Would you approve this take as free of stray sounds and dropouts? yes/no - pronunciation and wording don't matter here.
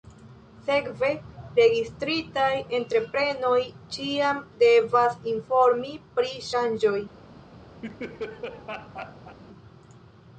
no